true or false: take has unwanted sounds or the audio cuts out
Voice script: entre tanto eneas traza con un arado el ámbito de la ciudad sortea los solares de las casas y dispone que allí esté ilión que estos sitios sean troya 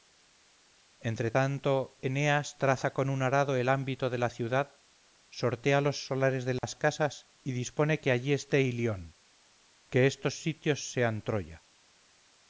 true